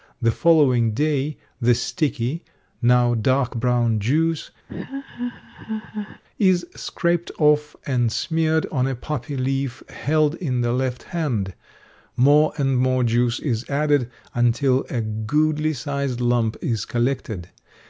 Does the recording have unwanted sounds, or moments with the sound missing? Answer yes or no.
yes